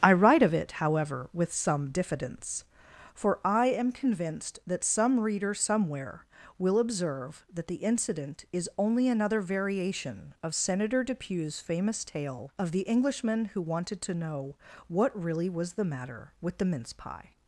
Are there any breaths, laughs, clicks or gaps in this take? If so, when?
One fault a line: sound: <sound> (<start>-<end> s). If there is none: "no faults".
no faults